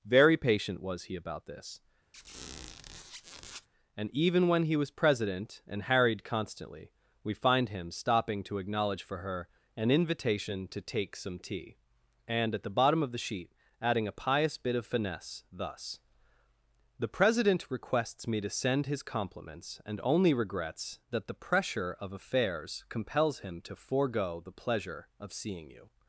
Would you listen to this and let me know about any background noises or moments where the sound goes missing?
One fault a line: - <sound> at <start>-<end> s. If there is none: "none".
- squeak at 2.1-3.7 s